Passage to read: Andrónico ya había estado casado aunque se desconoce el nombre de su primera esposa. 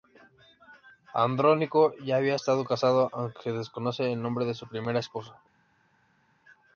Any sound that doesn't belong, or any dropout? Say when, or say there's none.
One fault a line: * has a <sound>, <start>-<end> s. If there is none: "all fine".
all fine